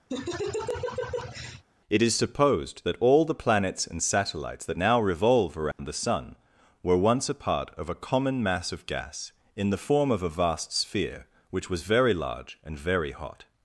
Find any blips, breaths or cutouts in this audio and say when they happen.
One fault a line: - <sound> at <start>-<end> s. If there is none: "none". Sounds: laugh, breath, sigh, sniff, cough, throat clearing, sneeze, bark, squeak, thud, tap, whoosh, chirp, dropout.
- laugh at 0.1-1.6 s
- dropout at 5.7-5.8 s